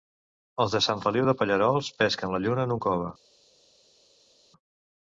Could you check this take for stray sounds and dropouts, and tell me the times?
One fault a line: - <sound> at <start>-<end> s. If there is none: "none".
none